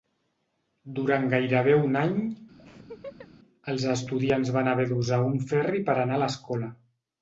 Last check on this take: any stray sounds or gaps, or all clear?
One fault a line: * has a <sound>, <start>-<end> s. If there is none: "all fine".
* has a laugh, 2.6-3.3 s